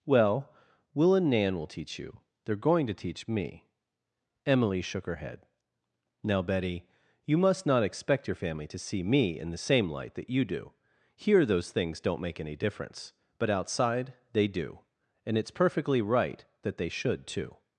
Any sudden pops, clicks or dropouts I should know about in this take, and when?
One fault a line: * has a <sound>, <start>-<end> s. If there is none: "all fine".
all fine